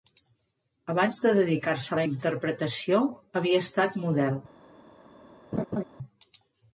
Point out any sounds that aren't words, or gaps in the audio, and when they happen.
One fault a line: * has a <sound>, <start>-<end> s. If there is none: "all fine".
* has a laugh, 5.5-5.8 s